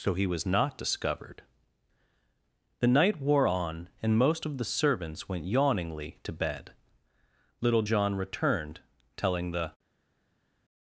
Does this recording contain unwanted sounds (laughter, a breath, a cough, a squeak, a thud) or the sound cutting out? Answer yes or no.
no